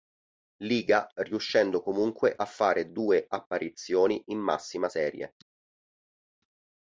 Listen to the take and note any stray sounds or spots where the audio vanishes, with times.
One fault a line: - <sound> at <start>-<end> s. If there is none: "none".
none